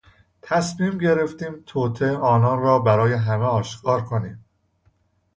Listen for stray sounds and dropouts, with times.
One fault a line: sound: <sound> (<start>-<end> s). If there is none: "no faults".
no faults